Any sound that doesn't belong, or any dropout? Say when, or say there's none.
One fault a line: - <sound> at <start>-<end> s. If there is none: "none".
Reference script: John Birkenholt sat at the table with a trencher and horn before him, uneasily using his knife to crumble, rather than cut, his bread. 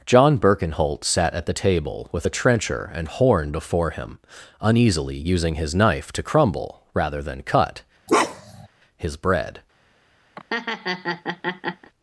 - bark at 8.1-8.7 s
- laugh at 10.4-11.9 s